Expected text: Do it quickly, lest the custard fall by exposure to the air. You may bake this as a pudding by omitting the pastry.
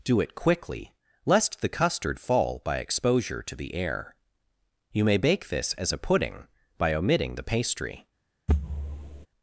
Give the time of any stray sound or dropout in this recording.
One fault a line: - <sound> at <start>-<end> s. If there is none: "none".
- thud at 8.5-9.3 s